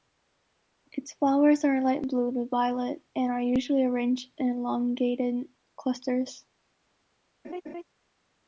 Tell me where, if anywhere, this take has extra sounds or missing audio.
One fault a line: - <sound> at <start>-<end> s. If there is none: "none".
- laugh at 7.4-7.8 s